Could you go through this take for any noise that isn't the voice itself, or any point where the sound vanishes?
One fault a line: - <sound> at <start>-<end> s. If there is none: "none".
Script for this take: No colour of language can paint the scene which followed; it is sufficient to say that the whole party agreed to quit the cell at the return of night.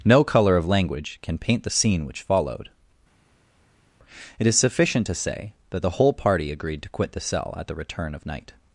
none